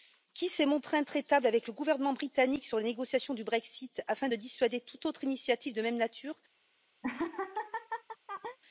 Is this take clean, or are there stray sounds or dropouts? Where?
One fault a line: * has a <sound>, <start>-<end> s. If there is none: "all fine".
* has a laugh, 7.0-8.6 s